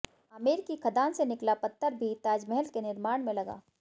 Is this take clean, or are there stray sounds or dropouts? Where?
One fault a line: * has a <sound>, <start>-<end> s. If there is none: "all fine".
all fine